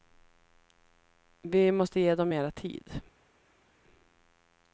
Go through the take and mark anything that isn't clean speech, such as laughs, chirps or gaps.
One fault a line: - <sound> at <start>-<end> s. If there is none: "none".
none